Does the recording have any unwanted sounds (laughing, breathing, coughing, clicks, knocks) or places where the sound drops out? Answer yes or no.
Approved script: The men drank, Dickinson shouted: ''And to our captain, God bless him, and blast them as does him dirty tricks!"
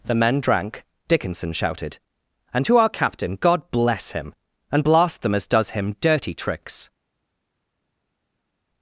no